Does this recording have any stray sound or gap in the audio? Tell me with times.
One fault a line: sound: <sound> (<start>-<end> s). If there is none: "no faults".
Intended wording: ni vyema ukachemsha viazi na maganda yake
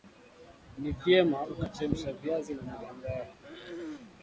sound: throat clearing (3.4-4.2 s)